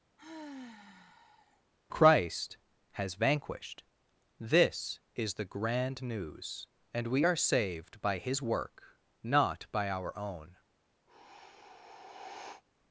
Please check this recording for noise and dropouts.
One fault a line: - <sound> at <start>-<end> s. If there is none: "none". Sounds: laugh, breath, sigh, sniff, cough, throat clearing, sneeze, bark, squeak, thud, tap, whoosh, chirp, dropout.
- sigh at 0.2-1.6 s
- sigh at 11.1-12.6 s